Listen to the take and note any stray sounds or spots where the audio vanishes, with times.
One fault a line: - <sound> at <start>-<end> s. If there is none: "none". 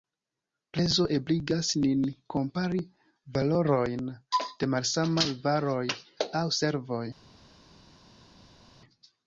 none